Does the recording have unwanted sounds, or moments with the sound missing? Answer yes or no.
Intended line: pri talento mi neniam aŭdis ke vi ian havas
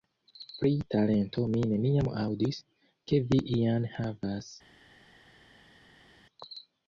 no